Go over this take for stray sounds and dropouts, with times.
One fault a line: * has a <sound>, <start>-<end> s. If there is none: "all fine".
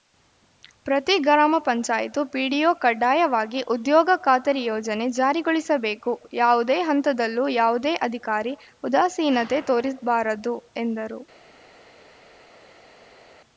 all fine